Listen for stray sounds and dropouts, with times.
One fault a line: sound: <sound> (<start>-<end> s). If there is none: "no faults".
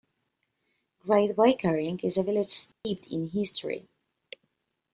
sound: dropout (2.7-2.8 s)